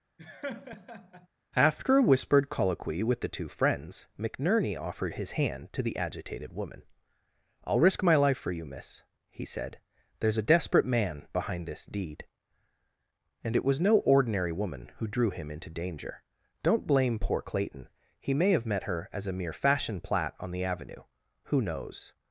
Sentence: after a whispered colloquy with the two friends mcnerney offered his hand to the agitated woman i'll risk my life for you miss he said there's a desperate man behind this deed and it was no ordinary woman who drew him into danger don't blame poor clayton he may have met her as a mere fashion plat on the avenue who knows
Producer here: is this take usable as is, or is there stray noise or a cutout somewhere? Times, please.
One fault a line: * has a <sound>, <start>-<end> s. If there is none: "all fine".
* has a laugh, 0.2-1.3 s